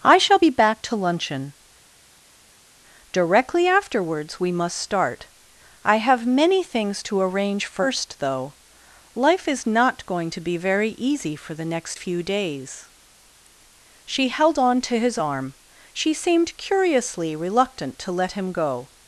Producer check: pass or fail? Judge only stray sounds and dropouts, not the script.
pass